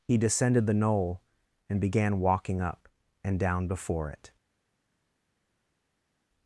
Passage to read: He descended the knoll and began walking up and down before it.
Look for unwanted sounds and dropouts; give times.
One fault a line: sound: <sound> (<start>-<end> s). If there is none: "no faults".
no faults